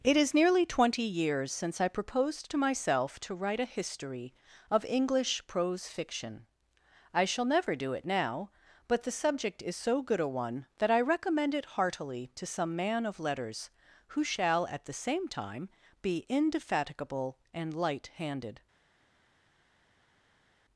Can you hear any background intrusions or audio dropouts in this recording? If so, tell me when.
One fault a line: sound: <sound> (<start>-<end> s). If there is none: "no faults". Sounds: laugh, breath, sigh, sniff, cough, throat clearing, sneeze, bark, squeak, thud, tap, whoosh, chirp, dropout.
no faults